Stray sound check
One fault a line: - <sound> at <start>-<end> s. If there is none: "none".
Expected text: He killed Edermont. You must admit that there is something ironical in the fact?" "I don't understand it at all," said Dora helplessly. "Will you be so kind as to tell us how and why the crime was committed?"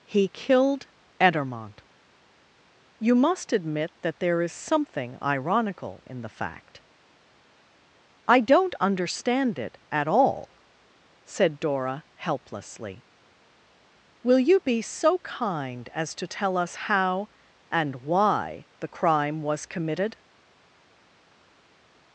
none